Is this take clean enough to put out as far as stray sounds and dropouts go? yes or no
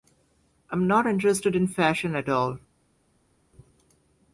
yes